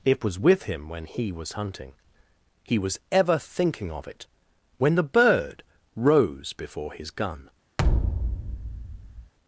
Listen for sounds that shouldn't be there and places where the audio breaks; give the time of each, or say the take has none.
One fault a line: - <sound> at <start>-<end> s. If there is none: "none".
- thud at 7.8-9.3 s